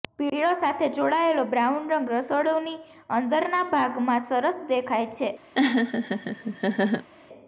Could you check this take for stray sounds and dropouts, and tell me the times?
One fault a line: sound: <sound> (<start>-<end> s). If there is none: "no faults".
sound: laugh (5.5-7.1 s)